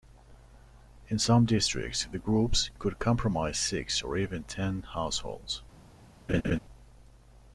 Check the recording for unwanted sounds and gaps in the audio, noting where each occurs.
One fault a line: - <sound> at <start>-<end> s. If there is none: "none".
- laugh at 6.3-6.6 s